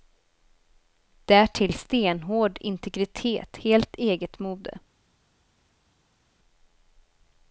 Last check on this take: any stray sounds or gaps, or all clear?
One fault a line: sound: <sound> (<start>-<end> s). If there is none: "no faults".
no faults